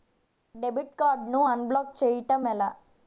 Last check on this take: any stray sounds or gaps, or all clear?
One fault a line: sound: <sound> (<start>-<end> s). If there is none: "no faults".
no faults